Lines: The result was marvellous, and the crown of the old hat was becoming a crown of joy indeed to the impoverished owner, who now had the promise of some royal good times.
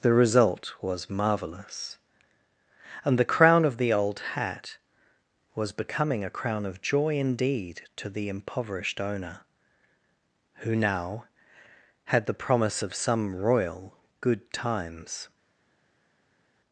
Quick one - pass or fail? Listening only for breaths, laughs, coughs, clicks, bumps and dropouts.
pass